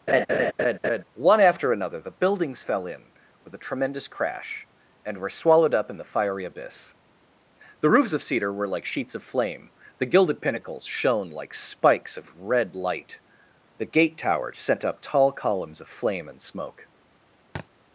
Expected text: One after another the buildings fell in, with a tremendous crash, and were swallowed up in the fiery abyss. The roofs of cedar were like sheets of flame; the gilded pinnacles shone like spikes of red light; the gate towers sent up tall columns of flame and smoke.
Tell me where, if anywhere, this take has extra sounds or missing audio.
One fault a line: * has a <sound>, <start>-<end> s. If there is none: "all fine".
* has a laugh, 0.1-1.0 s
* has a thud, 17.6-17.7 s